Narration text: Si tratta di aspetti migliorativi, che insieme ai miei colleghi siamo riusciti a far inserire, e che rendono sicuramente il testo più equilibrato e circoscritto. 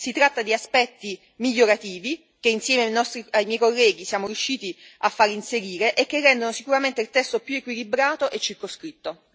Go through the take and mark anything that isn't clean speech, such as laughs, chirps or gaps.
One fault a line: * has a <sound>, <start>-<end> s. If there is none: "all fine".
all fine